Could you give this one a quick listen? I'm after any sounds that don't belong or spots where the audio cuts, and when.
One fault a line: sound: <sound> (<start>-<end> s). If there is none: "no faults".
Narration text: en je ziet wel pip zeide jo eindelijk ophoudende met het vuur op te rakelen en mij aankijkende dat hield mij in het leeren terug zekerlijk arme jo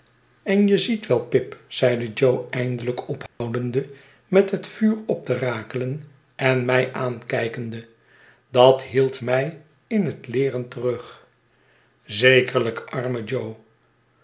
sound: dropout (3.3-3.4 s)